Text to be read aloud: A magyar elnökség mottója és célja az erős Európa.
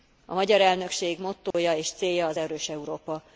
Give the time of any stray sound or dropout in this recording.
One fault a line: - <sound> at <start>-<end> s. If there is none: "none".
- dropout at 1.5-1.5 s